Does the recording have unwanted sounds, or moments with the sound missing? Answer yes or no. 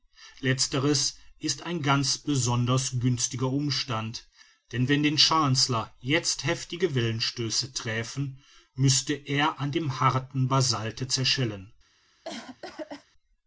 yes